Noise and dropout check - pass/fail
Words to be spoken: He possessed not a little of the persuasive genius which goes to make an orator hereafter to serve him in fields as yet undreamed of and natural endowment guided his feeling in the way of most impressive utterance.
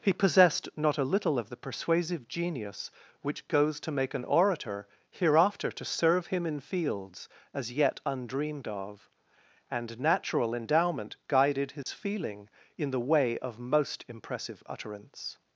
fail